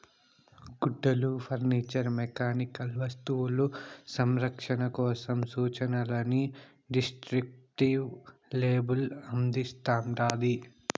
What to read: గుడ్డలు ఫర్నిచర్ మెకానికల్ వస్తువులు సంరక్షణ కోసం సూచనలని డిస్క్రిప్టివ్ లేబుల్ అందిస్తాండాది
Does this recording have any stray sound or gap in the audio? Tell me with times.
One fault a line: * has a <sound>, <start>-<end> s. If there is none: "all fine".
all fine